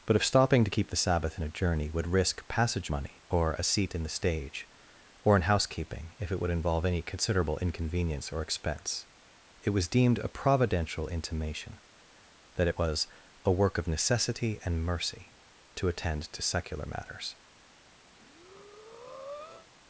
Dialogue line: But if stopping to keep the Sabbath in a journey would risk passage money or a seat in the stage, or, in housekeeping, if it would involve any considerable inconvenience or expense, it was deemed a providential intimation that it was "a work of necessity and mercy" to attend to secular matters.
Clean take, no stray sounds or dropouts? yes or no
no